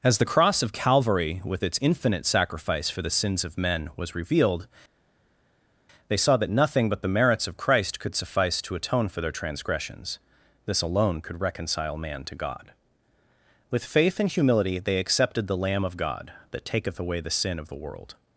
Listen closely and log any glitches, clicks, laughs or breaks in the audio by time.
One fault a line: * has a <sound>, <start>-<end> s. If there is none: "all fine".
all fine